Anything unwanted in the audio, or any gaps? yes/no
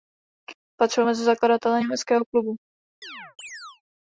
yes